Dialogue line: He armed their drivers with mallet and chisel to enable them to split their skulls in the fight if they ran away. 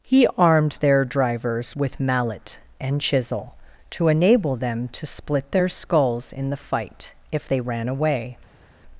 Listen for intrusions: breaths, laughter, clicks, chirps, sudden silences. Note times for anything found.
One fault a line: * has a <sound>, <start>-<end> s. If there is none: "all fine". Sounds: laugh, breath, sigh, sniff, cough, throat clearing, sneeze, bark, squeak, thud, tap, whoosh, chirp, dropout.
all fine